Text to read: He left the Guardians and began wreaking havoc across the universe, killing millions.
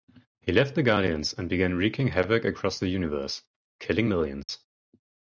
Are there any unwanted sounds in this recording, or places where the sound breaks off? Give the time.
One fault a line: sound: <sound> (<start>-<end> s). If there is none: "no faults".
sound: dropout (4.4-4.5 s)